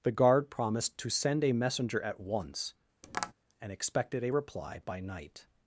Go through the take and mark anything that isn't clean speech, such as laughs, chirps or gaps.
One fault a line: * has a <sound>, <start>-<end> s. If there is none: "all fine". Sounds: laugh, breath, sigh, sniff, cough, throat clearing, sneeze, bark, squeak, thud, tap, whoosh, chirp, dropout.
* has a tap, 3.0-3.3 s